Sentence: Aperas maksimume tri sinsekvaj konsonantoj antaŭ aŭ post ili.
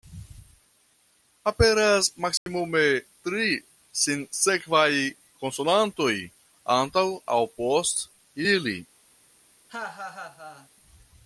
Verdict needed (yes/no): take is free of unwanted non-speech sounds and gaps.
no